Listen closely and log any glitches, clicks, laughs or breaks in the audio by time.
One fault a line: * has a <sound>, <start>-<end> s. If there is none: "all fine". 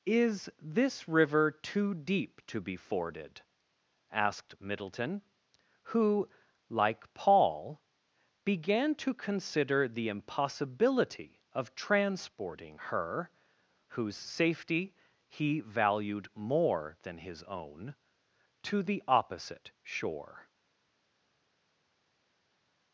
all fine